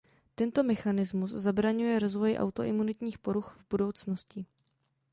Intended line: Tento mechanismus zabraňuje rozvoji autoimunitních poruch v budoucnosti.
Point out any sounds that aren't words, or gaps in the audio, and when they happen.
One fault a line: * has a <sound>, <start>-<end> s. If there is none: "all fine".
all fine